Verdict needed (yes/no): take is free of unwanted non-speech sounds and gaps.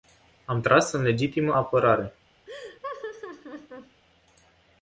no